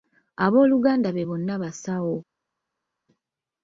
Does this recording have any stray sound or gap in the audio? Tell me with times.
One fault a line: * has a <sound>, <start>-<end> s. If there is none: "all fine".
all fine